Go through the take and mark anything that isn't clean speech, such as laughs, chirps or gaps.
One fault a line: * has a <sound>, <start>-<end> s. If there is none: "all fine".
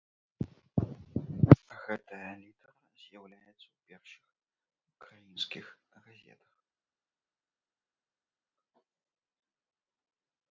all fine